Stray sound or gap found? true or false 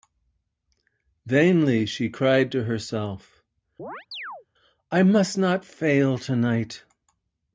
true